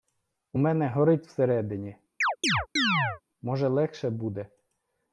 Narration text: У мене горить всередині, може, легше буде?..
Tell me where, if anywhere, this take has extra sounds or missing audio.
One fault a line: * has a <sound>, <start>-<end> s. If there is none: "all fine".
* has a chirp, 2.2-3.2 s